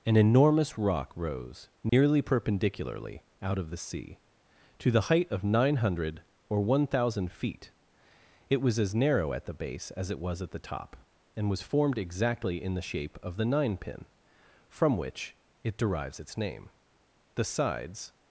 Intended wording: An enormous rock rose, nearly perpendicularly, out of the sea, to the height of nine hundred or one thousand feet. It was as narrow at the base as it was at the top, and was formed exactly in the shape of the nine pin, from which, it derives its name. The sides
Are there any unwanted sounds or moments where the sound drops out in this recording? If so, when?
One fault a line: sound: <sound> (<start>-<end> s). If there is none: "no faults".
sound: dropout (1.9-1.9 s)